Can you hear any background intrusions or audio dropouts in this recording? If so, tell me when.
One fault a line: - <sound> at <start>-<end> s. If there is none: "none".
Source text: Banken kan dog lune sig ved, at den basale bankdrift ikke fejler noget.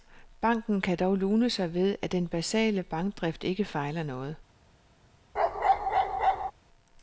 - bark at 5.4-6.5 s